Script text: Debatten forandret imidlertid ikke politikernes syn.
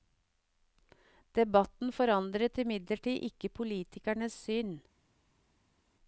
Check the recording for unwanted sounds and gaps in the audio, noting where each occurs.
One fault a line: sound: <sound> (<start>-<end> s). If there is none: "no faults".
no faults